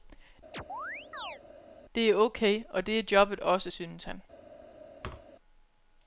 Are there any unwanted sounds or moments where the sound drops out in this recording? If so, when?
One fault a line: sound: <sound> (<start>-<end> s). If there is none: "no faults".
sound: chirp (0.5-1.4 s)
sound: thud (5.0-5.3 s)